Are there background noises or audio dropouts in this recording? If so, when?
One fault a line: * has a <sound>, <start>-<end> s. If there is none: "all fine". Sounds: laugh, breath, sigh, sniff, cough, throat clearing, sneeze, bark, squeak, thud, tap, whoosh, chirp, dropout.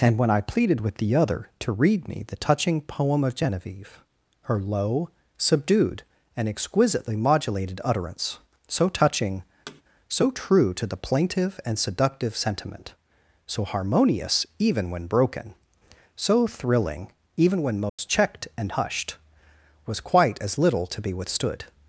* has a thud, 9.7-9.8 s
* has a dropout, 17.9-18.0 s